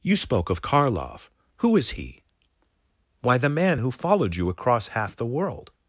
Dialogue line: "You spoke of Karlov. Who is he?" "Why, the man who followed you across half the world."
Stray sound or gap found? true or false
false